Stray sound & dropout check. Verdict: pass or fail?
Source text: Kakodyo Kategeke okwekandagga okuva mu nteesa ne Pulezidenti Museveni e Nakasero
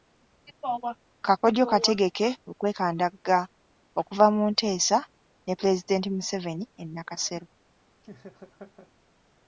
fail